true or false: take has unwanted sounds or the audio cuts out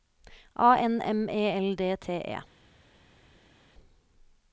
false